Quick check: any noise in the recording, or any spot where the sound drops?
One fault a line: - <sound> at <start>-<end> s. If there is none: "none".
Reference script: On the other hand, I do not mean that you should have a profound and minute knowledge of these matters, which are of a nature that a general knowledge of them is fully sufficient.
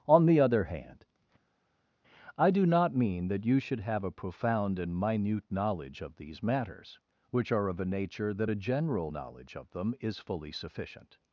none